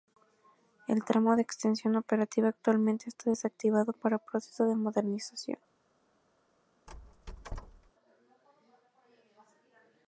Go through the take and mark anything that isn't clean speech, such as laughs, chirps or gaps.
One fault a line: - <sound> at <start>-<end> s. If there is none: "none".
- squeak at 6.9-7.9 s